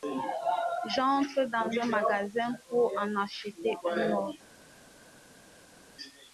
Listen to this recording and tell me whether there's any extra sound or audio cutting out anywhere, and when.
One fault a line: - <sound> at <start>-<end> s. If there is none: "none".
none